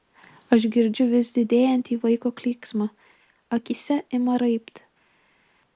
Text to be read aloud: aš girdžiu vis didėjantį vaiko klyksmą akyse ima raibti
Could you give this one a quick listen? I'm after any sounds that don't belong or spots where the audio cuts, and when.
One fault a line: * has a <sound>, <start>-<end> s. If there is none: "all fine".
all fine